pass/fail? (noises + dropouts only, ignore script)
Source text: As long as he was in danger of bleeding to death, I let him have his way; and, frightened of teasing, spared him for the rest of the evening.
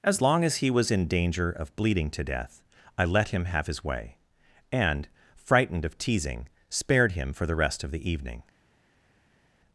pass